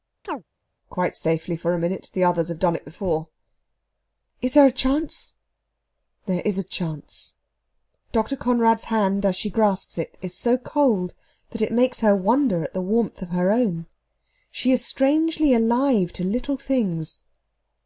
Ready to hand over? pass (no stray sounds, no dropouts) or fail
fail